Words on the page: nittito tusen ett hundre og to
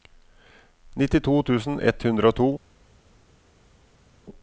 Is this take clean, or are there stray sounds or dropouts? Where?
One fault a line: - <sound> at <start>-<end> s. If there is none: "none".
none